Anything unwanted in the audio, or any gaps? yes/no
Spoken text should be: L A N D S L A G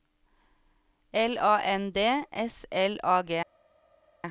no